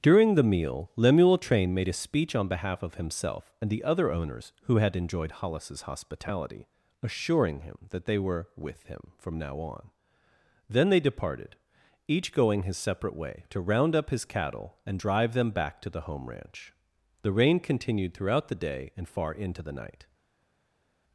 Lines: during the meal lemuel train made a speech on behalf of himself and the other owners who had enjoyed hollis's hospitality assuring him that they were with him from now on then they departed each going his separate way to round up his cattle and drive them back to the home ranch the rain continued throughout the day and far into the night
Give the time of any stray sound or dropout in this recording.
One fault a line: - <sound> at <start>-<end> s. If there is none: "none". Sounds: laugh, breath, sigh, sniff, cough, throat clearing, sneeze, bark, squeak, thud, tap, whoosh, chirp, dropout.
none